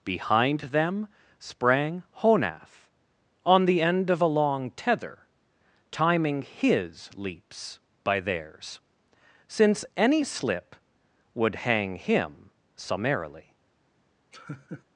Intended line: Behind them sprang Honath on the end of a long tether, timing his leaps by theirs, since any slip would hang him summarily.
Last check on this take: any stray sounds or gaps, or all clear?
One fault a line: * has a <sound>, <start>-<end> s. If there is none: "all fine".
* has a laugh, 14.3-14.8 s